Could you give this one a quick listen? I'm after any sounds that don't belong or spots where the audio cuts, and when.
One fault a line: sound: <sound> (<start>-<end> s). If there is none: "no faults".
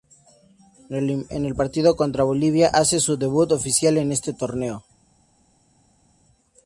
no faults